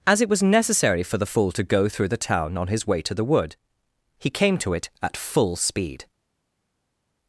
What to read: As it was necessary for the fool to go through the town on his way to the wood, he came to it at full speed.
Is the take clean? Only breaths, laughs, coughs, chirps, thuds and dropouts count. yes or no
yes